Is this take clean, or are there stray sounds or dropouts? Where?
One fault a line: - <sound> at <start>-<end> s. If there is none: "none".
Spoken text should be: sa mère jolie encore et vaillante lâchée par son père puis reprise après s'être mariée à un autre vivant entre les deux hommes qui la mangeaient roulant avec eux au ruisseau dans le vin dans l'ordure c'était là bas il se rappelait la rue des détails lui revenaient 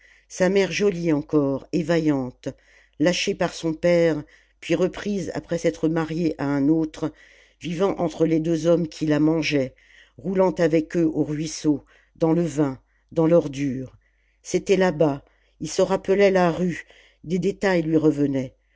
none